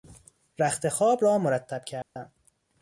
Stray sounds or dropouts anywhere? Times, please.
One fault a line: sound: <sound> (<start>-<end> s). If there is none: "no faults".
sound: dropout (2.0-2.2 s)